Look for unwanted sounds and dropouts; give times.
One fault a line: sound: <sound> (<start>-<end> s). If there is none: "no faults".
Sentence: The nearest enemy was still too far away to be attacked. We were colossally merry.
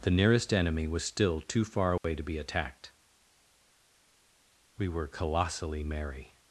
sound: dropout (2.0-2.0 s)